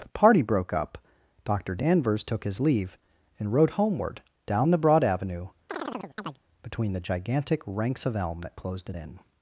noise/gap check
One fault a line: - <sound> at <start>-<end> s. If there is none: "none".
- chirp at 5.7-6.4 s